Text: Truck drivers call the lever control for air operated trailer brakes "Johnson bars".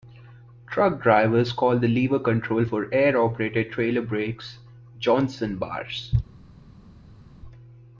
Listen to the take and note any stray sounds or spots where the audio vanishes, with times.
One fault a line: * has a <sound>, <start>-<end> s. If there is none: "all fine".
all fine